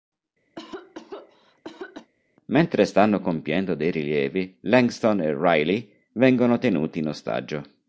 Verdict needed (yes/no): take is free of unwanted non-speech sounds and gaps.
no